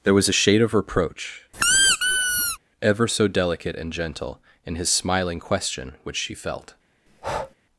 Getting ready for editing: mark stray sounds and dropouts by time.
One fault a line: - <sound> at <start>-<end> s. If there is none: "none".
- squeak at 1.5-2.6 s
- breath at 7.1-7.6 s